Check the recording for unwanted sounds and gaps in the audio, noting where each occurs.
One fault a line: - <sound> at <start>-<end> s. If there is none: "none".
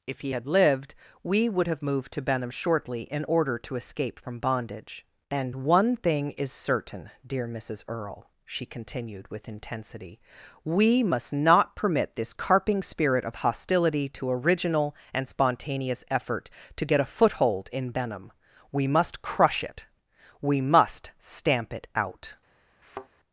- thud at 22.8-23.1 s